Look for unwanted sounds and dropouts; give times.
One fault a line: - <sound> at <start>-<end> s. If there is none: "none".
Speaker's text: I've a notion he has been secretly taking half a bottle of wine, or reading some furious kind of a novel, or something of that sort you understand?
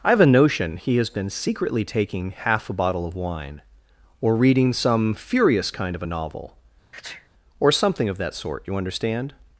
- sneeze at 6.9-7.3 s